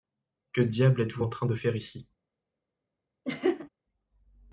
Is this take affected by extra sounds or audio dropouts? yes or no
yes